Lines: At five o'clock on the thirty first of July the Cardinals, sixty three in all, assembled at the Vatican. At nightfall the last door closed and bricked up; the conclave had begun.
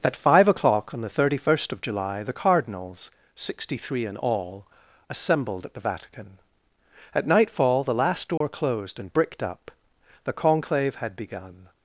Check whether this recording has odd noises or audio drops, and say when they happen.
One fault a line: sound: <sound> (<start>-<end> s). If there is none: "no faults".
sound: dropout (8.4-8.4 s)